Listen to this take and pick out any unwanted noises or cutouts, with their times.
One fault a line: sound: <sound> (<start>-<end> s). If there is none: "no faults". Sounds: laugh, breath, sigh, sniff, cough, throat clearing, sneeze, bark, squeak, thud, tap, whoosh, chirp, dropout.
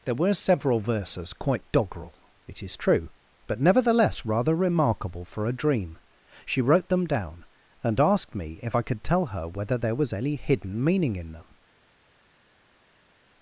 no faults